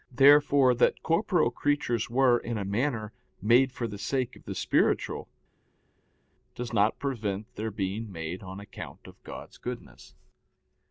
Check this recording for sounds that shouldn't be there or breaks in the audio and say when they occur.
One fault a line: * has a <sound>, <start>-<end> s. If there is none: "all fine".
all fine